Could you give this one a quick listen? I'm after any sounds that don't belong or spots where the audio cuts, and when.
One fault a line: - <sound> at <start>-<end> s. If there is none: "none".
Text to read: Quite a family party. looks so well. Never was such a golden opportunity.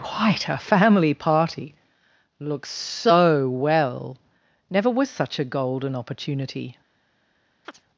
- chirp at 7.6-7.8 s